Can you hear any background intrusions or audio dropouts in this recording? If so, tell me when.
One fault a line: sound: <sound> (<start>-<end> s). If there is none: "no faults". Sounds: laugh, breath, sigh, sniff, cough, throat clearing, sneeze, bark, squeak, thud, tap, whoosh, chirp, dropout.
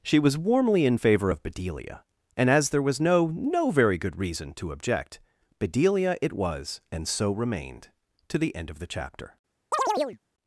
sound: chirp (9.7-10.2 s)